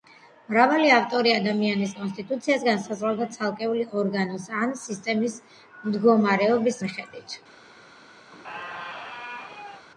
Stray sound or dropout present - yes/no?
yes